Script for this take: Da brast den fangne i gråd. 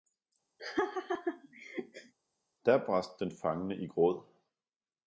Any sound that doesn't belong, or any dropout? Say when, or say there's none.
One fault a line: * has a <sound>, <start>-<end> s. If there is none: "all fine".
* has a laugh, 0.6-2.1 s